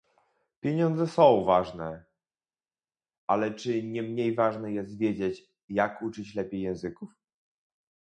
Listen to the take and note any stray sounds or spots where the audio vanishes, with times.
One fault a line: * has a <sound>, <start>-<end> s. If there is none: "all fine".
all fine